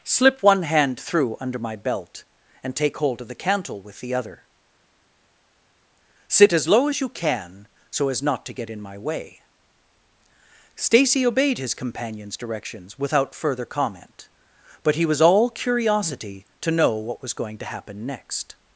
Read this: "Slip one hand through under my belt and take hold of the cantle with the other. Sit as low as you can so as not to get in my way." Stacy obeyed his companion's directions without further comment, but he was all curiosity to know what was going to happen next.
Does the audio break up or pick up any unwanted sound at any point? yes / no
no